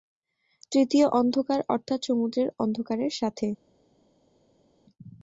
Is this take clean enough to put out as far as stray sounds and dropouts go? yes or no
yes